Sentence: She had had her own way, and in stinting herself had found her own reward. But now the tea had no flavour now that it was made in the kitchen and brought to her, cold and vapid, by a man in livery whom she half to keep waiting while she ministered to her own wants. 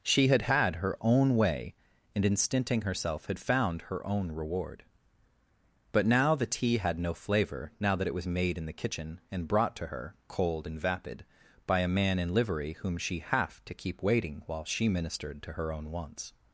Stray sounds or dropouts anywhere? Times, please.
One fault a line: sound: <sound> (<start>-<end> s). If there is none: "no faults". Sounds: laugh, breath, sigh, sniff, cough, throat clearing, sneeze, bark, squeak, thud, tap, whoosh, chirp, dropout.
no faults